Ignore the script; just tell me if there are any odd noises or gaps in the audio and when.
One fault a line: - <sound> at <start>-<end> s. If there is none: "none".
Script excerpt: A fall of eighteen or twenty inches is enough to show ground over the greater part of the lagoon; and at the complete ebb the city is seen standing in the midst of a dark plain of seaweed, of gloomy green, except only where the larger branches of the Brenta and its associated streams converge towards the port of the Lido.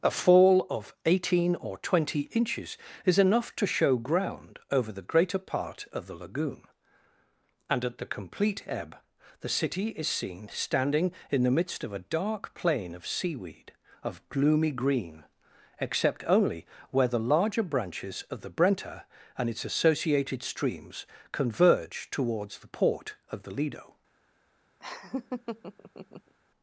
- laugh at 24.8-26.3 s